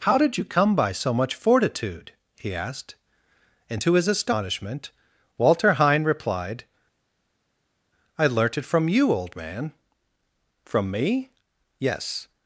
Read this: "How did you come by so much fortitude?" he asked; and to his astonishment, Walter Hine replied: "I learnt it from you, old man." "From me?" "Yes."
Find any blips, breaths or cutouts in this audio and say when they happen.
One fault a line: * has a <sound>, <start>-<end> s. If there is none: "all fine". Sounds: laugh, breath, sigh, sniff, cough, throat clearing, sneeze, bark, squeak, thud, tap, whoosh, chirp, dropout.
all fine